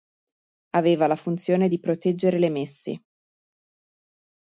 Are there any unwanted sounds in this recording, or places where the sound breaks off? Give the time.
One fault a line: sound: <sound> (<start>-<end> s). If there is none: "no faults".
no faults